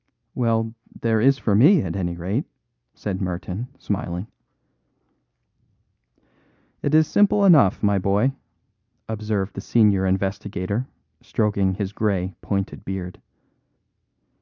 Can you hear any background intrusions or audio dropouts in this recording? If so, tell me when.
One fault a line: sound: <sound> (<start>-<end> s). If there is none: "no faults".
no faults